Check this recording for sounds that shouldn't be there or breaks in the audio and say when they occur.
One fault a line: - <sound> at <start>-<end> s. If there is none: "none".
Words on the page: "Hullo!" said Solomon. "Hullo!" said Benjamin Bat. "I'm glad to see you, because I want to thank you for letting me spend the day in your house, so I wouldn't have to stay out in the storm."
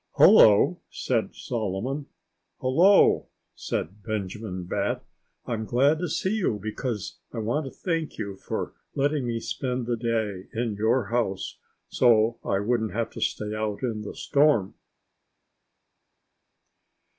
none